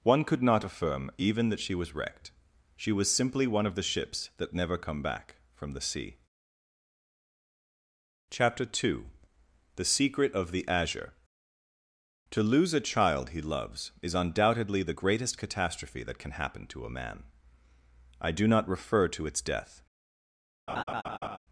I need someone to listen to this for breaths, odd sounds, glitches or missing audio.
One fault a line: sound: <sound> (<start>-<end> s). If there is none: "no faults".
sound: laugh (20.7-21.4 s)